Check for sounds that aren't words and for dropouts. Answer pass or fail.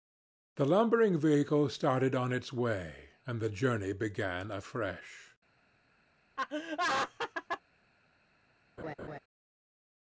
fail